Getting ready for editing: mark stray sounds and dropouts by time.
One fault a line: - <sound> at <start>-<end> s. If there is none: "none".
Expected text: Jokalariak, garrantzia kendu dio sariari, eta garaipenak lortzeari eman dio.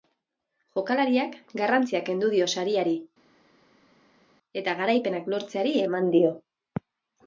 none